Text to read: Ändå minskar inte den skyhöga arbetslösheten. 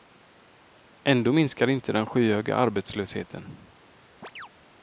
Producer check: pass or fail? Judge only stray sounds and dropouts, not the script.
fail